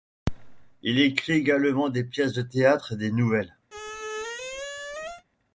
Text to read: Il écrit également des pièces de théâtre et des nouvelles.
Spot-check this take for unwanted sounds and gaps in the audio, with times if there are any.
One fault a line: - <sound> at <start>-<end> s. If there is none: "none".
- squeak at 3.7-5.2 s